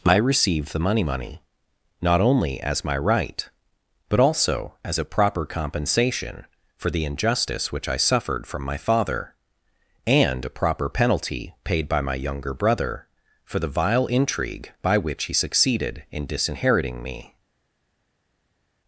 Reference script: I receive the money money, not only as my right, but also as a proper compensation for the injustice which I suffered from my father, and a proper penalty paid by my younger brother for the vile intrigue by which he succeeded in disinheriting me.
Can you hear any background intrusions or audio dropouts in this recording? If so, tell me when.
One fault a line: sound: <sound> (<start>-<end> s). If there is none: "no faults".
no faults